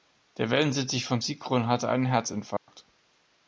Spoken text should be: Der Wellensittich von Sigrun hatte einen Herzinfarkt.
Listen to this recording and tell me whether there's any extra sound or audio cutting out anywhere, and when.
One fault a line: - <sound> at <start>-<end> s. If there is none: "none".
- dropout at 2.6-2.7 s